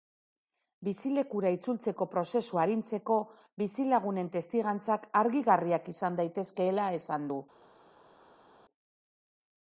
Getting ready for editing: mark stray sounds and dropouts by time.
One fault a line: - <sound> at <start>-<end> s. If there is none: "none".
none